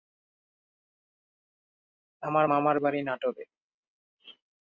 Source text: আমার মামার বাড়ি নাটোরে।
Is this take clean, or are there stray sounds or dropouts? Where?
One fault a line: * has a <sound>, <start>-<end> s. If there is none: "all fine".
all fine